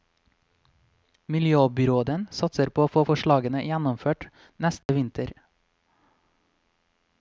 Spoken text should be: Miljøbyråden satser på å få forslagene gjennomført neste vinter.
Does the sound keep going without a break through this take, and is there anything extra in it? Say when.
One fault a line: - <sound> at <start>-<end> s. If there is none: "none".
- dropout at 4.8-4.9 s